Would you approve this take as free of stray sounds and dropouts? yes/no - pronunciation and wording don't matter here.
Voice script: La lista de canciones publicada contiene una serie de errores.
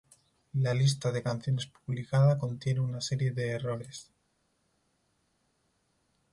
yes